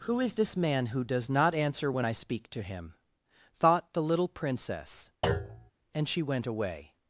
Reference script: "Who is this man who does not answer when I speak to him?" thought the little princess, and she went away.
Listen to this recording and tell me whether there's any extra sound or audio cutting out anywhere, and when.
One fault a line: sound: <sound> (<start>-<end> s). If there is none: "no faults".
sound: thud (5.2-5.7 s)